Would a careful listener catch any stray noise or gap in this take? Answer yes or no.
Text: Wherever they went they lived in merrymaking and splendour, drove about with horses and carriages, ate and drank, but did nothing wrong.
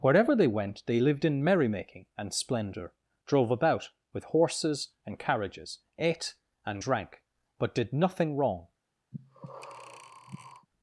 yes